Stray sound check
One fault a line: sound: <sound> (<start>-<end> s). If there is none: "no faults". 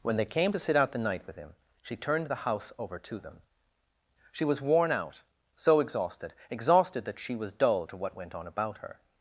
no faults